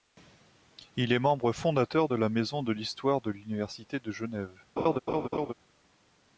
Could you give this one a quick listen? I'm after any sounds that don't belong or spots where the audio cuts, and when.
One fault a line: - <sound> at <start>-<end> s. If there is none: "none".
- laugh at 4.8-5.5 s